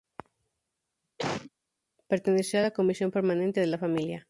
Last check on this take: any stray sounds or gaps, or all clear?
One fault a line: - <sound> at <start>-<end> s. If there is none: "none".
- cough at 1.2-1.5 s